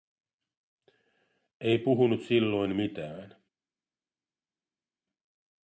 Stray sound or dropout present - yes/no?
no